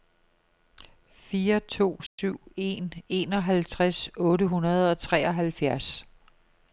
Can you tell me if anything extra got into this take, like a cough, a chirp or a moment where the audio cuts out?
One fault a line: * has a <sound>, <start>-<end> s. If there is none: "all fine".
* has a dropout, 2.1-2.2 s